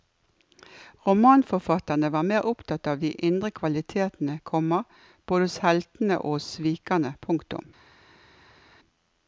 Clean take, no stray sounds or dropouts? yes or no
yes